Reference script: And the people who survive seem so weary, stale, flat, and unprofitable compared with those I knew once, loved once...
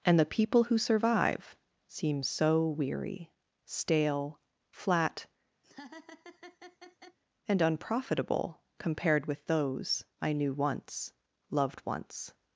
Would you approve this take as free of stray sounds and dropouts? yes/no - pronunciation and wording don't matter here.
no